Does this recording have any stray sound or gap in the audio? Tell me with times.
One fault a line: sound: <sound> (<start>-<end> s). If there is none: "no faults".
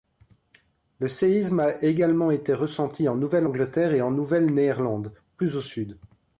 no faults